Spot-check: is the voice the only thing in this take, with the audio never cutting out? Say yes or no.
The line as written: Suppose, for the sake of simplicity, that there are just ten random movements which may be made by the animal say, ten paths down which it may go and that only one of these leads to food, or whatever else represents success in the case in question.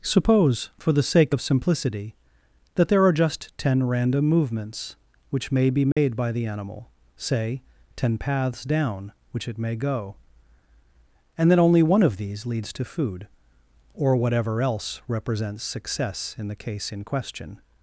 no